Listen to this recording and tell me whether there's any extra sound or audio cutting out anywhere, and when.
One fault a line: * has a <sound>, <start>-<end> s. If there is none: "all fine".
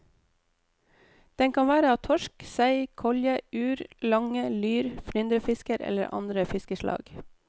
all fine